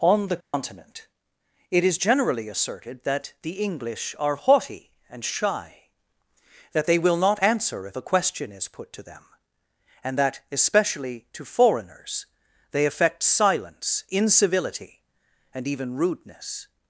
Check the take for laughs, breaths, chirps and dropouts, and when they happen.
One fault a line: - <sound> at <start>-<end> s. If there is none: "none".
- dropout at 0.4-0.5 s